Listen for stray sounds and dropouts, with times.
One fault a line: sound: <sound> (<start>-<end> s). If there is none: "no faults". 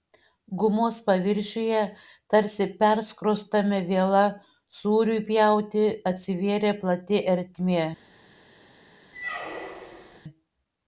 sound: squeak (9.1-10.2 s)